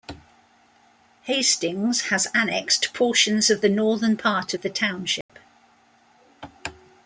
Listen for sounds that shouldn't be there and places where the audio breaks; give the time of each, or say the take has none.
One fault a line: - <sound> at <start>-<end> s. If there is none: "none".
- dropout at 5.2-5.3 s